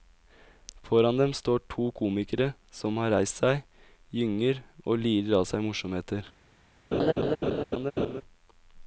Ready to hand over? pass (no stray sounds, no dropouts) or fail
fail